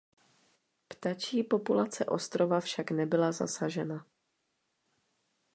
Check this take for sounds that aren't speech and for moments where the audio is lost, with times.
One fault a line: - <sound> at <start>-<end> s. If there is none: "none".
none